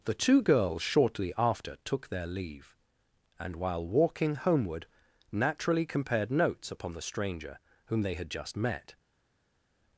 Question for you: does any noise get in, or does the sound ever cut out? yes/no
no